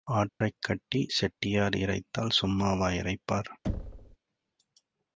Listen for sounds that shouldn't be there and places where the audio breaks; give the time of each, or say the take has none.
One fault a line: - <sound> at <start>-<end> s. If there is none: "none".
- dropout at 0.3-0.4 s
- thud at 3.6-4.2 s